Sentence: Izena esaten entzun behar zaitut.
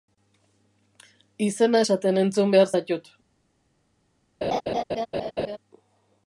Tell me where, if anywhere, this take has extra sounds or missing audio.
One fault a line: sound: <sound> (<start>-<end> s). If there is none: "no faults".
sound: laugh (4.4-5.6 s)